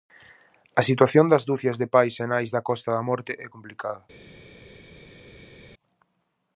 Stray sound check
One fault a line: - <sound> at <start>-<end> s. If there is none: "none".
none